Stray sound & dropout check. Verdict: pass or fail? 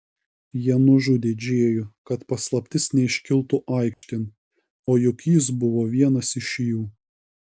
fail